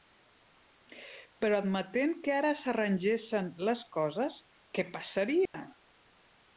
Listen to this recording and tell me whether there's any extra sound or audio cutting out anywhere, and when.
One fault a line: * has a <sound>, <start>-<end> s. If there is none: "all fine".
* has a dropout, 5.5-5.5 s